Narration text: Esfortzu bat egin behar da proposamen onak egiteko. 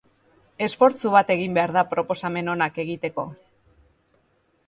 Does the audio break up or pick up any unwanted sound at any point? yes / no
no